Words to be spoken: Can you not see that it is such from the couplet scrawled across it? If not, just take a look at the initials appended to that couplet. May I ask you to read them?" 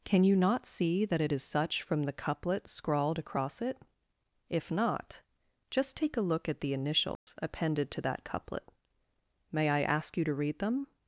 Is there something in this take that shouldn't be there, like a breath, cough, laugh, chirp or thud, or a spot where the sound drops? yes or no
yes